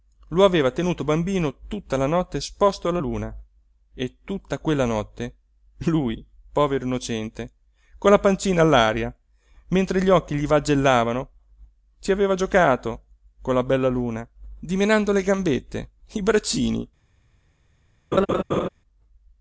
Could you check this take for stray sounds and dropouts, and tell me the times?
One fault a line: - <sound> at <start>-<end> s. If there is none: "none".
- laugh at 18.1-18.7 s